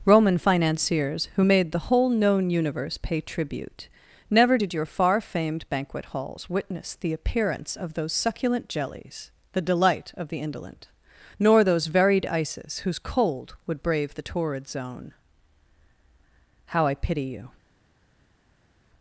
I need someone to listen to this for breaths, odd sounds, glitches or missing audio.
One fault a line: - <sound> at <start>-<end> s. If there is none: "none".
none